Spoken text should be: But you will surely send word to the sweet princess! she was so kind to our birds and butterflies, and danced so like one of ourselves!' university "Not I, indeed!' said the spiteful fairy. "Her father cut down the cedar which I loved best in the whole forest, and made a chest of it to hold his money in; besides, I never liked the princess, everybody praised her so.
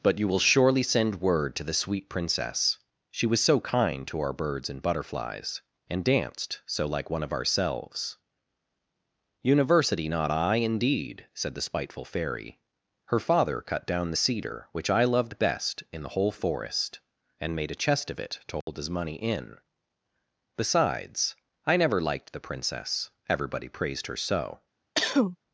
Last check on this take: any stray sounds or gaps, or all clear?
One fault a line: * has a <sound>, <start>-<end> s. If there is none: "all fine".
* has a dropout, 18.6-18.7 s
* has a cough, 25.0-25.4 s